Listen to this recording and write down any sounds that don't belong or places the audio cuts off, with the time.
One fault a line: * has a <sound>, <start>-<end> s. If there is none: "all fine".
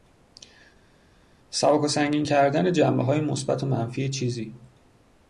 all fine